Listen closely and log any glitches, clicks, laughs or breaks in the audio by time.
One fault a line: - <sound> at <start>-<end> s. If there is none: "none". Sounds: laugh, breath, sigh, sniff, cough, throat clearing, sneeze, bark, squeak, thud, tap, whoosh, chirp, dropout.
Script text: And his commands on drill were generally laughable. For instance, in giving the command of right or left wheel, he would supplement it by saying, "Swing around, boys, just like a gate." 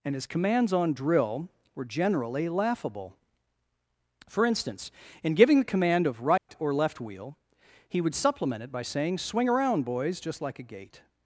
- dropout at 6.4-6.5 s